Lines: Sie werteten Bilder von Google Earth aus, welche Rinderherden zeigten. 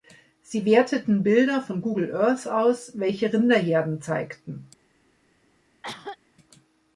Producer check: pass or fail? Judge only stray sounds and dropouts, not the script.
fail